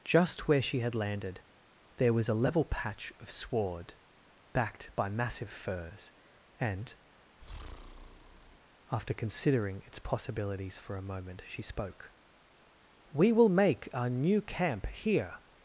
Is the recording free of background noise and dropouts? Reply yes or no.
no